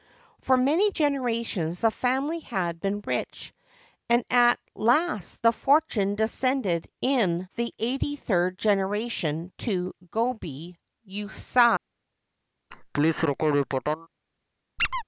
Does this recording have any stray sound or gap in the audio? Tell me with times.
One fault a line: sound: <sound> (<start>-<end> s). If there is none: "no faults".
sound: laugh (12.7-14.1 s)
sound: squeak (14.8-15.0 s)